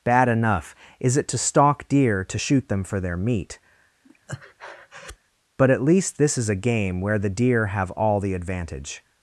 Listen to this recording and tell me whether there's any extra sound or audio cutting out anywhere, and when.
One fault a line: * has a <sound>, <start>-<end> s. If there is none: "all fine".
* has a breath, 4.0-5.2 s